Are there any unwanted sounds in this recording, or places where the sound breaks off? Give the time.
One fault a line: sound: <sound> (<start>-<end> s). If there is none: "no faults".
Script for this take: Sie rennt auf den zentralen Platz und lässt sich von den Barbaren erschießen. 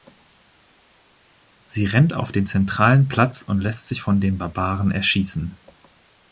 no faults